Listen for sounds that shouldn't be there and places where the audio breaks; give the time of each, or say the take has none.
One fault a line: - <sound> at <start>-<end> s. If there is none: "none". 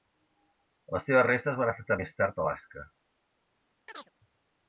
- chirp at 3.9-4.1 s